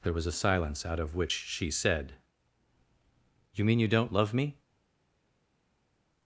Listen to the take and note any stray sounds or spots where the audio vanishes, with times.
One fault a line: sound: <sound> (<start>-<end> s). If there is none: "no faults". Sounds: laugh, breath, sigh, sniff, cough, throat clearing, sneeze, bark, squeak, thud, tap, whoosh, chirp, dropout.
no faults